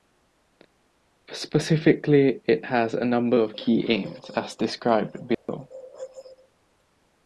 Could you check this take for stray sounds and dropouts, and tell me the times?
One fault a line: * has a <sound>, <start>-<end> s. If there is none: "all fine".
* has a dropout, 5.3-5.5 s